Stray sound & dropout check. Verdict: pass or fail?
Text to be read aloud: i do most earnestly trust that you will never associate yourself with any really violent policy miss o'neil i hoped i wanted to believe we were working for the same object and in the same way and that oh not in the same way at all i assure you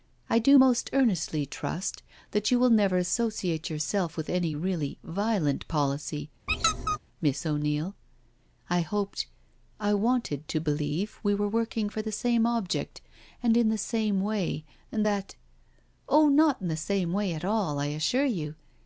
fail